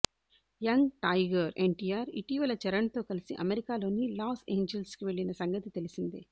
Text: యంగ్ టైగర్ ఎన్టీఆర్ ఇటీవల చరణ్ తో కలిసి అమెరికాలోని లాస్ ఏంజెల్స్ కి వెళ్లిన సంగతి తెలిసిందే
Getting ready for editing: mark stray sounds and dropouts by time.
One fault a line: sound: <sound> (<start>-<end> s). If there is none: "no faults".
no faults